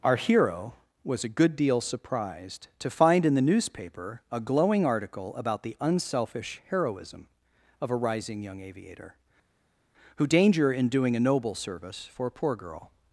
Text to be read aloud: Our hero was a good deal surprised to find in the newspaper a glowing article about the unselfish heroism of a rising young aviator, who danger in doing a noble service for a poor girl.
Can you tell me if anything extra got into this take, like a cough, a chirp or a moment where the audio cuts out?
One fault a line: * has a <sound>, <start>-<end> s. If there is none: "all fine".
all fine